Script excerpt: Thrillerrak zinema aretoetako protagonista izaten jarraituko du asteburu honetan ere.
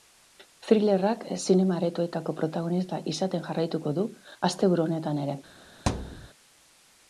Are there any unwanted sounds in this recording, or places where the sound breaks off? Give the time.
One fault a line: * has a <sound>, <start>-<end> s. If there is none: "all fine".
* has a thud, 5.9-6.3 s